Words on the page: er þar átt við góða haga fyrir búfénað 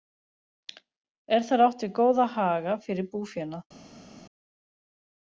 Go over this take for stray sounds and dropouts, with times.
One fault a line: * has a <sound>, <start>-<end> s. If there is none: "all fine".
all fine